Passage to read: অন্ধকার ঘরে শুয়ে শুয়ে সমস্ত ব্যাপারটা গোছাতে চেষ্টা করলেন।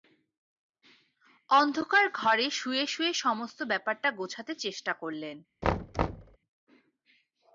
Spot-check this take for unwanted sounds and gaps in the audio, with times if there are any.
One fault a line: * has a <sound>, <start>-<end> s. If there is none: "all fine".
* has a thud, 5.6-6.4 s